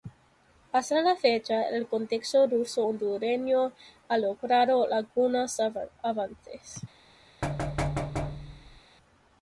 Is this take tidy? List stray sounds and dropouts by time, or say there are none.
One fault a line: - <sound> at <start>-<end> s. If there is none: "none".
- thud at 7.4-8.8 s